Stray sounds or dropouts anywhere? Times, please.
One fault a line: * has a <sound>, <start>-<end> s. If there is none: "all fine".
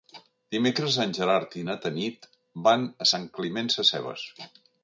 all fine